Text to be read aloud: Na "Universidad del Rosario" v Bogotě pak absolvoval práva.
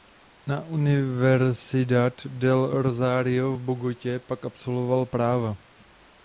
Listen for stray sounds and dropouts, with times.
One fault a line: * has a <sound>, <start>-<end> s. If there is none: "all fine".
all fine